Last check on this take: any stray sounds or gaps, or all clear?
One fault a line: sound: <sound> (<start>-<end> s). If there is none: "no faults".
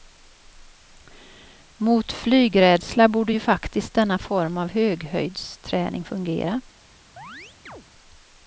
sound: chirp (7.2-7.8 s)